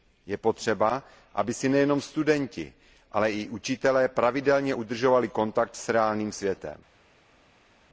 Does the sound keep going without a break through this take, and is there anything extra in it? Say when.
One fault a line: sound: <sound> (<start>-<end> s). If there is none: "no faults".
no faults